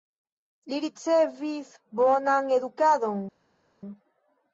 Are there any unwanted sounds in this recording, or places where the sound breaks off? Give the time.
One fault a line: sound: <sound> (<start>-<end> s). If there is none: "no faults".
no faults